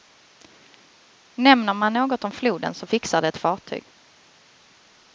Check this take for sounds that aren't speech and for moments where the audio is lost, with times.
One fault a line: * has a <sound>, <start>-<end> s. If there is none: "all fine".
all fine